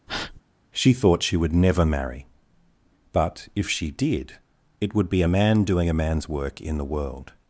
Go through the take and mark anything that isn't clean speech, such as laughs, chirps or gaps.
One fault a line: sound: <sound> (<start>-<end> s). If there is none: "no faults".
sound: breath (0.1-0.4 s)